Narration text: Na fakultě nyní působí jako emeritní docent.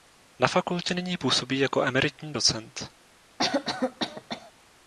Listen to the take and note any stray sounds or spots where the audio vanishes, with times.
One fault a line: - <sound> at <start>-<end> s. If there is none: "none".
- cough at 3.4-4.5 s